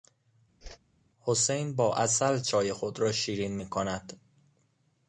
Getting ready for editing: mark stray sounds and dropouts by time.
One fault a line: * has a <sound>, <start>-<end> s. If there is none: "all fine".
* has a whoosh, 0.6-0.8 s